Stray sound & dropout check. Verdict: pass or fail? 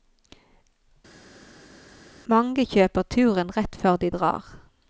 pass